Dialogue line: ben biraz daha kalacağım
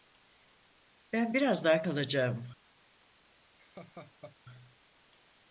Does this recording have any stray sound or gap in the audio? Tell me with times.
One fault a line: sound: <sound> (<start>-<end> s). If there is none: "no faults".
sound: laugh (3.6-4.4 s)